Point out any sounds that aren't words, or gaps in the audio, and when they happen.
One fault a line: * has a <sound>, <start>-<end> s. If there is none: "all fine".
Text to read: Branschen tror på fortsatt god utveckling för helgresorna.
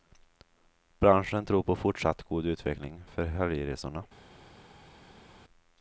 all fine